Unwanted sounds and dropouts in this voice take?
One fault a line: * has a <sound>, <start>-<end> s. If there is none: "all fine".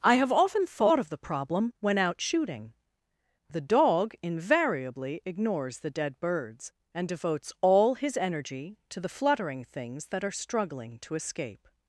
all fine